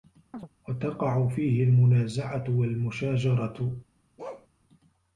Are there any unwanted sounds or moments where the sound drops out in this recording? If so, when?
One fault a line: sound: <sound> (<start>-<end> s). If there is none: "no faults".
sound: chirp (0.3-0.5 s)
sound: bark (4.2-4.5 s)